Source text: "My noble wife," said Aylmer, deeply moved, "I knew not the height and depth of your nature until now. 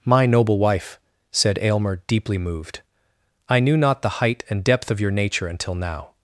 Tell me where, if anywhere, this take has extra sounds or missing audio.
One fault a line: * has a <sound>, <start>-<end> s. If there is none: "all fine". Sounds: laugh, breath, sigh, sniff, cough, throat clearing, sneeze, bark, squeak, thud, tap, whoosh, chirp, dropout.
all fine